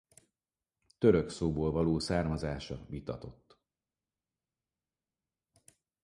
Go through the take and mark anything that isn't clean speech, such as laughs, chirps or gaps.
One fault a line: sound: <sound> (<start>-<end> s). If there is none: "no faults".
no faults